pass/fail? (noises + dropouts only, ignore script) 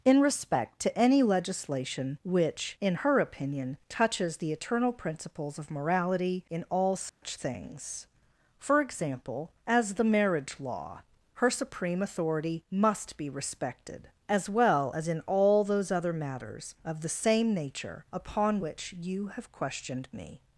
fail